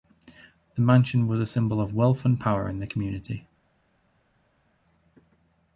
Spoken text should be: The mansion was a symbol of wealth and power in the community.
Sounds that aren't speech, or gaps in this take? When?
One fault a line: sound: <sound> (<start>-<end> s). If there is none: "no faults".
no faults